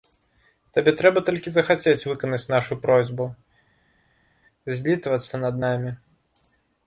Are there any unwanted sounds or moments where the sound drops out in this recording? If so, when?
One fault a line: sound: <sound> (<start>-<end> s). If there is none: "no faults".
no faults